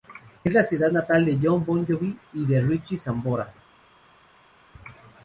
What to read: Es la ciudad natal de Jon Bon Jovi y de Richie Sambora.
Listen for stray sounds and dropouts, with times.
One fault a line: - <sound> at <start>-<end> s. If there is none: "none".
none